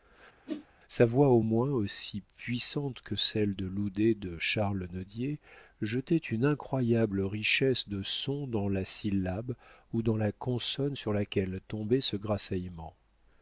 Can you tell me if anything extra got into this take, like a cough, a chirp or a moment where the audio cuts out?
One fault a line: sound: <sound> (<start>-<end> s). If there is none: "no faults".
sound: whoosh (0.5-0.7 s)